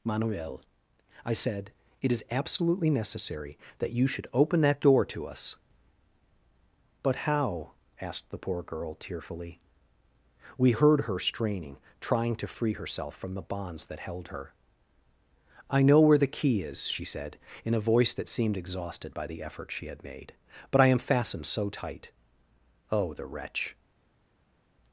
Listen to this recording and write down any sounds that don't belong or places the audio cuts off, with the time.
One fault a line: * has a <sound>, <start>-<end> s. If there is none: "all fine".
all fine